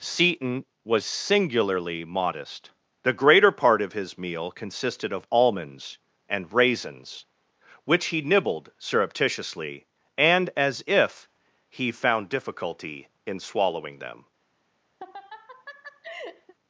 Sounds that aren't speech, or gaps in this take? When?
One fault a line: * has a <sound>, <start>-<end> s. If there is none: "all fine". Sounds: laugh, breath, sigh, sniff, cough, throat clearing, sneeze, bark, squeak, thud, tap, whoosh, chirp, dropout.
* has a laugh, 15.0-16.5 s